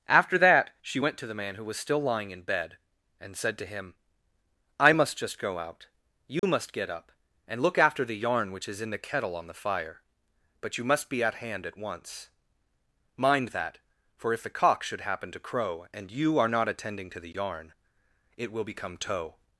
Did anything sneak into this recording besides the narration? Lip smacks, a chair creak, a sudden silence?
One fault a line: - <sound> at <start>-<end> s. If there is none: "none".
- dropout at 6.4-6.4 s